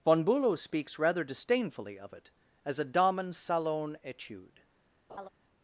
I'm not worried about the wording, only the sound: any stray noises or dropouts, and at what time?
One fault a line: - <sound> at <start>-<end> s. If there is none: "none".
- laugh at 5.1-5.3 s